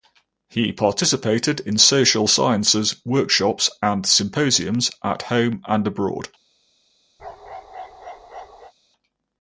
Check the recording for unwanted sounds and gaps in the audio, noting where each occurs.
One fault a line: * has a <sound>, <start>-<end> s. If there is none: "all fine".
* has a bark, 7.2-8.7 s